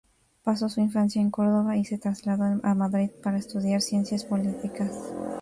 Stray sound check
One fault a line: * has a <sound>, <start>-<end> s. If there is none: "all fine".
all fine